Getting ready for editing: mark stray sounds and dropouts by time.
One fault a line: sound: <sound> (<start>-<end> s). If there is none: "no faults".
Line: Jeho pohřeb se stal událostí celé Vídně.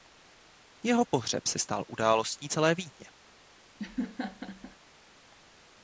sound: laugh (3.8-4.8 s)